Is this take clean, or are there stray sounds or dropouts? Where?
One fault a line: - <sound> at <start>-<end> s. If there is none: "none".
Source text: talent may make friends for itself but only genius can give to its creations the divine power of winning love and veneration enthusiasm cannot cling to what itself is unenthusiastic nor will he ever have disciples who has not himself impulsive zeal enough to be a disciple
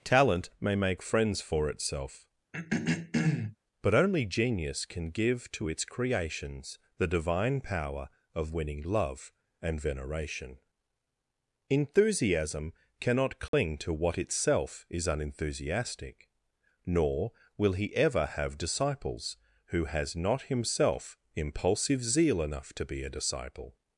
- throat clearing at 2.5-3.6 s
- dropout at 13.5-13.5 s